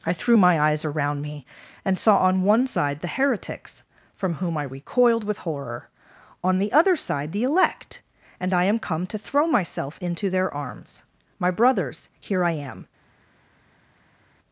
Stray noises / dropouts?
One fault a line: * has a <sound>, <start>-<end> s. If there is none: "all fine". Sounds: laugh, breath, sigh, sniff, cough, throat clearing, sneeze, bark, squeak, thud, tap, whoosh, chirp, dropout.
all fine